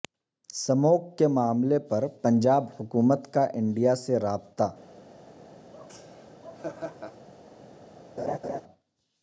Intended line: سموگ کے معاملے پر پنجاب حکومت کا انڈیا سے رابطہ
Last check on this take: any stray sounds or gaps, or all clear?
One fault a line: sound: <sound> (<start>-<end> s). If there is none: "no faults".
sound: laugh (5.7-7.3 s)
sound: laugh (8.2-8.6 s)